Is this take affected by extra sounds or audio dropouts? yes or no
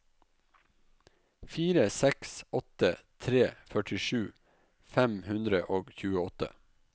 no